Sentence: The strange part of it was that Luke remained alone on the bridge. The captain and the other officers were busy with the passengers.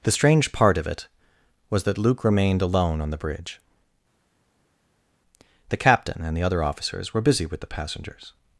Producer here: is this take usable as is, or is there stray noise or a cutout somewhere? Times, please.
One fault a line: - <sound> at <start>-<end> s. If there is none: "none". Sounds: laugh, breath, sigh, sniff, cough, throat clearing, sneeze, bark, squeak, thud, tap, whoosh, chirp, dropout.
none